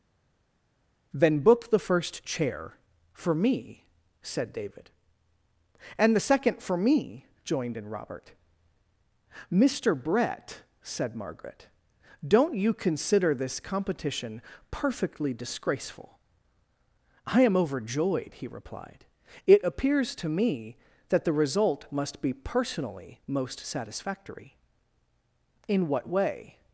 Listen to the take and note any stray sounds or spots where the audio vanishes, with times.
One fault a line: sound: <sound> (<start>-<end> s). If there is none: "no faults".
no faults